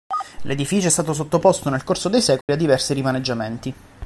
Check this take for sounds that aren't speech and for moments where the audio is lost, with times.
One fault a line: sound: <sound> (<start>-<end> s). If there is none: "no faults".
sound: dropout (2.4-2.5 s)